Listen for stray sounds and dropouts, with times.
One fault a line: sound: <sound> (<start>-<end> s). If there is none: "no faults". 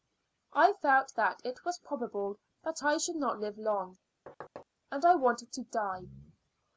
sound: thud (4.3-4.7 s)